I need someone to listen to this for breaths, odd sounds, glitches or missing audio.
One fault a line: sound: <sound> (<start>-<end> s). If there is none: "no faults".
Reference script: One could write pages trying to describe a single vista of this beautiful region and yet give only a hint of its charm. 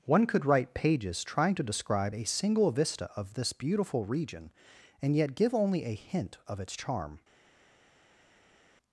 no faults